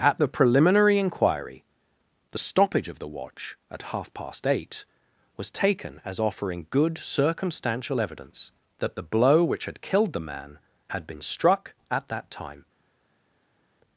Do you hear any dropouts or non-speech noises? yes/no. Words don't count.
no